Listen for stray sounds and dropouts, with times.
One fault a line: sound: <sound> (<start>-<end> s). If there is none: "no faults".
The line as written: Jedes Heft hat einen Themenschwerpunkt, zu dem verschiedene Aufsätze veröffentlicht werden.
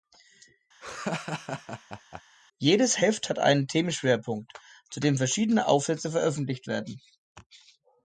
sound: laugh (0.8-2.2 s)